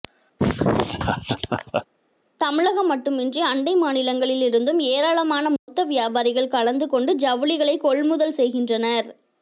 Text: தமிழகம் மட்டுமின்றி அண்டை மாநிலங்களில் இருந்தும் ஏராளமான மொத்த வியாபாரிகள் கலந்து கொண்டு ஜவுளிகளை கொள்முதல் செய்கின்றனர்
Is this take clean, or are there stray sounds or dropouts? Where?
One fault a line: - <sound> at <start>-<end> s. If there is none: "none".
- laugh at 0.4-1.9 s
- dropout at 5.6-5.7 s